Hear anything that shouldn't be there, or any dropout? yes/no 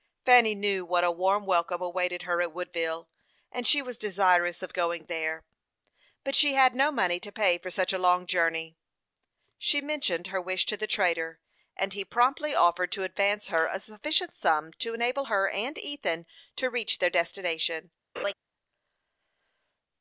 yes